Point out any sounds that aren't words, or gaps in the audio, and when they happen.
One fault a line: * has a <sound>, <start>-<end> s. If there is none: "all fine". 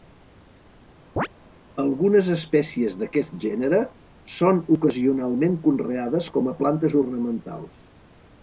* has a chirp, 1.2-1.3 s